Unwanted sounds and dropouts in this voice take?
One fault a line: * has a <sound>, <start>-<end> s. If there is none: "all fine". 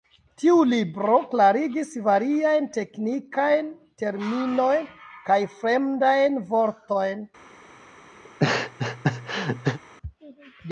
* has a laugh, 8.2-9.8 s